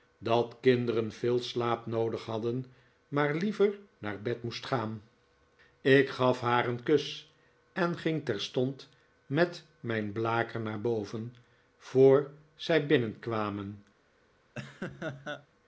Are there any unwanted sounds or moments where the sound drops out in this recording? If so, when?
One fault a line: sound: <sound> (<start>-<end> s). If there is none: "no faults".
sound: laugh (14.6-15.5 s)